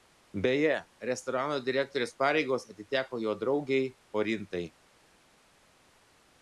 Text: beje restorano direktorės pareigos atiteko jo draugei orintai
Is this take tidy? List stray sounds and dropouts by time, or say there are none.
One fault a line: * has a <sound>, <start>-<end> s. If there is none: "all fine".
all fine